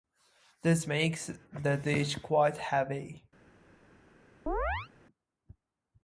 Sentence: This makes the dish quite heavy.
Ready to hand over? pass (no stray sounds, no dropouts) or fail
fail